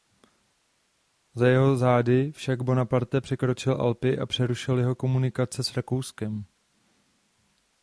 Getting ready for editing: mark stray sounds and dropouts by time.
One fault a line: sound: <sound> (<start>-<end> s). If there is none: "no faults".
no faults